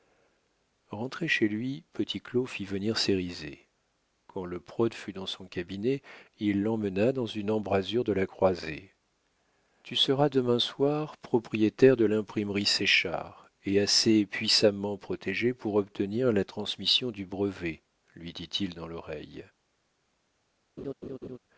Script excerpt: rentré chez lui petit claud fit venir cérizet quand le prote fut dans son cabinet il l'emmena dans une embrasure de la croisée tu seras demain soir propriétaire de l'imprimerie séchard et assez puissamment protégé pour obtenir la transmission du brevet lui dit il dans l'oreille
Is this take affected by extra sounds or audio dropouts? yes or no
yes